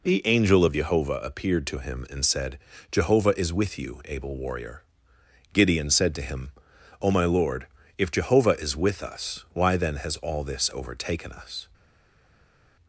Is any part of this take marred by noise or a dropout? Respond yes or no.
no